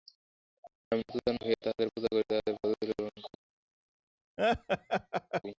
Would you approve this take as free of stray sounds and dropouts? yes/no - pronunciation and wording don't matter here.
no